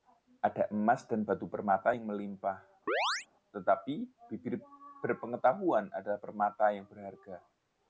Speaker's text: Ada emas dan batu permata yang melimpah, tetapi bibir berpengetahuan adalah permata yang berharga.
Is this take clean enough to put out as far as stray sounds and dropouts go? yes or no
no